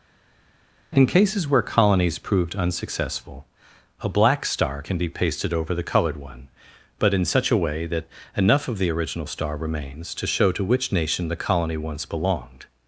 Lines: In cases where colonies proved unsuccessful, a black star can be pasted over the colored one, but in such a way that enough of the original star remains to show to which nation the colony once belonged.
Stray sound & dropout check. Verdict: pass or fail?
pass